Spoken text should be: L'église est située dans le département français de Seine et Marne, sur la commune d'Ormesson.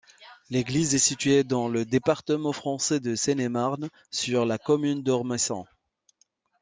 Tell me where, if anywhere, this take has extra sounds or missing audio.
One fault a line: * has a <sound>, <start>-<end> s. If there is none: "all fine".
all fine